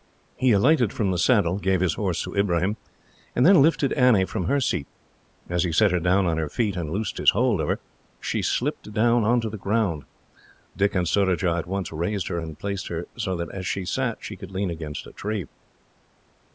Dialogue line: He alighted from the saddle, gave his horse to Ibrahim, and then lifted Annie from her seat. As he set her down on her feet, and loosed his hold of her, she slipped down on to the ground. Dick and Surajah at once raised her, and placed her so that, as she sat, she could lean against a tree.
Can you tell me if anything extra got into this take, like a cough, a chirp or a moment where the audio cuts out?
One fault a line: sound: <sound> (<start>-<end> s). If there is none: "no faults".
no faults